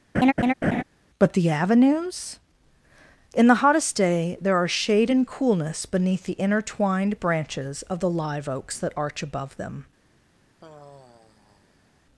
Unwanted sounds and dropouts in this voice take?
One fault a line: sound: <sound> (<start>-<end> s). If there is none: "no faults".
sound: laugh (0.1-0.8 s)
sound: sigh (10.6-12.0 s)